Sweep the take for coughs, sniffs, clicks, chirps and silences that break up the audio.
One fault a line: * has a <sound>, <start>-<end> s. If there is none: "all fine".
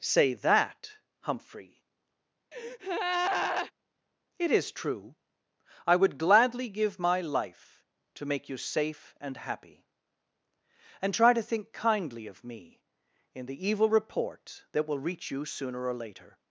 * has a breath, 2.5-3.7 s